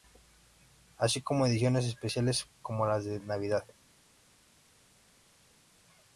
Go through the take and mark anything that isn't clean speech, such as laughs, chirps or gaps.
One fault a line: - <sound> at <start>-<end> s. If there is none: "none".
none